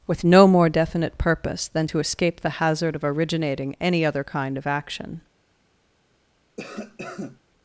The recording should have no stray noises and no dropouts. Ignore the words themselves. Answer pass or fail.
fail